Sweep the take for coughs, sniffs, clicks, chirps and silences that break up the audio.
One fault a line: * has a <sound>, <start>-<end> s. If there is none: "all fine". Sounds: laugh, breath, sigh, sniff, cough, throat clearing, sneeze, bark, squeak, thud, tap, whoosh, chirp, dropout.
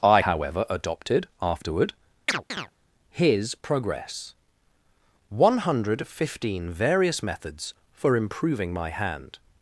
* has a chirp, 2.3-2.7 s